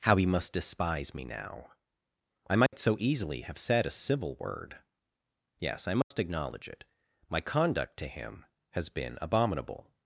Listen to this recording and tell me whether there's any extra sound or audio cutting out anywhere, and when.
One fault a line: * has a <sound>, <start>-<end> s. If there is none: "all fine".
* has a dropout, 2.7-2.7 s
* has a dropout, 6.0-6.1 s